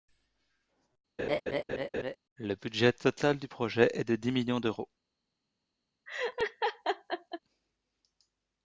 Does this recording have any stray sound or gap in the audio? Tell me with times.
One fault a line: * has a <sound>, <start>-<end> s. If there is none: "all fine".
* has a laugh, 1.2-2.2 s
* has a laugh, 6.1-7.4 s